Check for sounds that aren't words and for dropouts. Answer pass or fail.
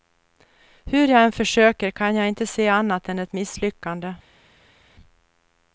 pass